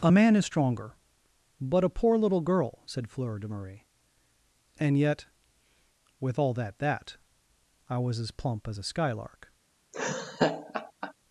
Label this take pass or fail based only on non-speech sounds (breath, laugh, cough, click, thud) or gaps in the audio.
fail